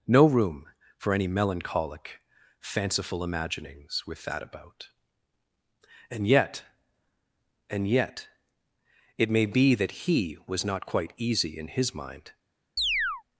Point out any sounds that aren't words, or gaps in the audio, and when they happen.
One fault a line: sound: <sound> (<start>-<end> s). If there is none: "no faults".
sound: chirp (12.8-13.2 s)